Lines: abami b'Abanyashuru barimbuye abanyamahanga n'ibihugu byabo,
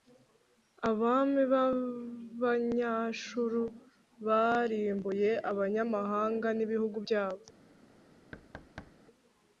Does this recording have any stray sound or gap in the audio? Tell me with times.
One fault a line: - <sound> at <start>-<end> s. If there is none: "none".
- thud at 8.3-8.9 s